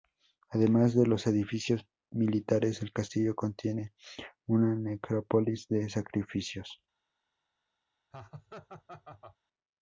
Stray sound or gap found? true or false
true